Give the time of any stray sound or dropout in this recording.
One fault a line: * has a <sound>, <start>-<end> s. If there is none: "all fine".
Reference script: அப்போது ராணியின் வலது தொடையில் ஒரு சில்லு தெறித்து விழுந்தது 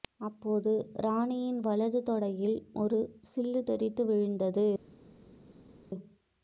all fine